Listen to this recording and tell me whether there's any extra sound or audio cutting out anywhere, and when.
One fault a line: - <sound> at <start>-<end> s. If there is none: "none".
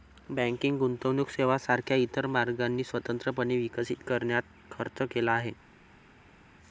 none